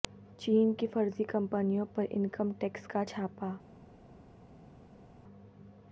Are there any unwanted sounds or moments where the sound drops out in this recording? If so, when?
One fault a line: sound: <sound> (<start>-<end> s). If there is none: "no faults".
no faults